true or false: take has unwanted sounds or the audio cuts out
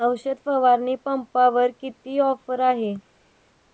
false